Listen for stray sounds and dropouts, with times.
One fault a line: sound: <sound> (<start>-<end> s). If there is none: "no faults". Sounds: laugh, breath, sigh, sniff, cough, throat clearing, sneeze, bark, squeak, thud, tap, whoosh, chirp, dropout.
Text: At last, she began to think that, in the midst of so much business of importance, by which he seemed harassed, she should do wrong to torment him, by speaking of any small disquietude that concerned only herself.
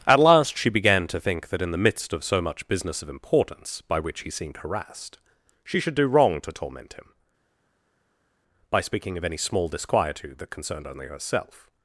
no faults